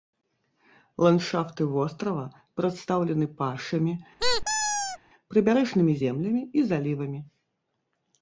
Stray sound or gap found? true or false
true